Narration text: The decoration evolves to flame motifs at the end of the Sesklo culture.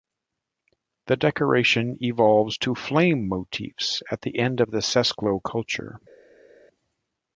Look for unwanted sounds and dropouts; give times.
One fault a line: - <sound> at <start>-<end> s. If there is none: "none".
none